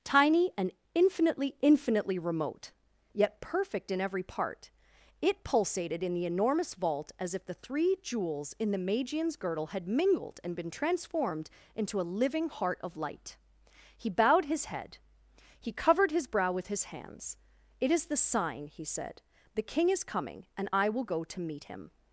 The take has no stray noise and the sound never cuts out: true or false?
true